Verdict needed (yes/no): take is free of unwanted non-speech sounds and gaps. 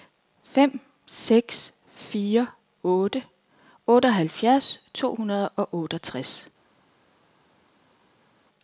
yes